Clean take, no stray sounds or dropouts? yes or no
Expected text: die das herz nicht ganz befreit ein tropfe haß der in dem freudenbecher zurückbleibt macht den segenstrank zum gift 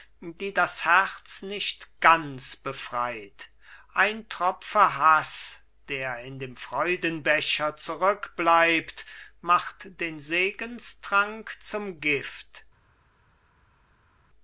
yes